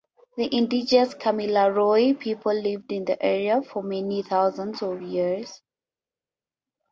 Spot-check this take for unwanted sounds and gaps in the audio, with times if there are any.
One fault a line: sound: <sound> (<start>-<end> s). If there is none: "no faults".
no faults